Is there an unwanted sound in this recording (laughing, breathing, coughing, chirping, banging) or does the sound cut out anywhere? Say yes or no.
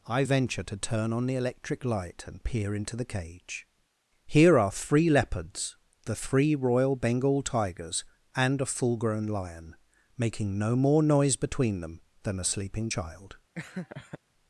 yes